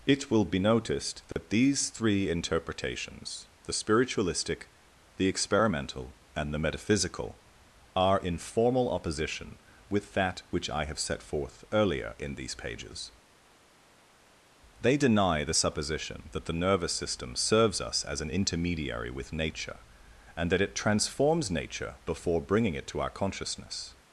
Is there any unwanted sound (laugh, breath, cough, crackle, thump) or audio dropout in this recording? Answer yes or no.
yes